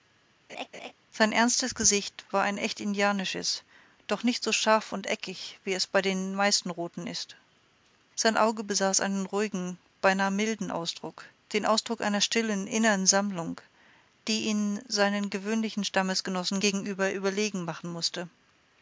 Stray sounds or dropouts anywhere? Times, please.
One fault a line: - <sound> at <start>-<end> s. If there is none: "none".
- laugh at 0.5-0.9 s